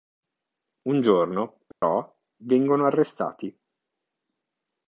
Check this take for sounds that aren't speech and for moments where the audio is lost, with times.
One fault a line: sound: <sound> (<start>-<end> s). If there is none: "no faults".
sound: dropout (1.7-1.8 s)